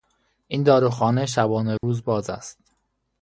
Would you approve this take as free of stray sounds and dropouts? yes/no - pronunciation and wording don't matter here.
no